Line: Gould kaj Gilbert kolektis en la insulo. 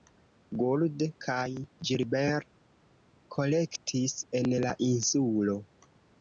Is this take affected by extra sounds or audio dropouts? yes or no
no